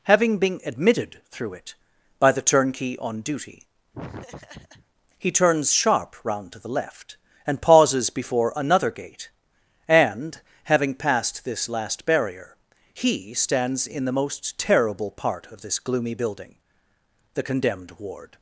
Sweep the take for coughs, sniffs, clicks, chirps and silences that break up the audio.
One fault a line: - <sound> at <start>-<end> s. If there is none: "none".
- laugh at 3.9-4.9 s